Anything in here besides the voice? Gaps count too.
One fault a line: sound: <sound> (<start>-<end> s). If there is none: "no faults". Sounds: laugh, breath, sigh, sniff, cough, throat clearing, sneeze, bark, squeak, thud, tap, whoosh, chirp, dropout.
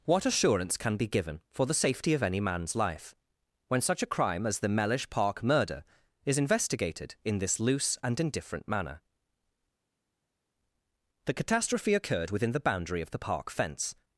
no faults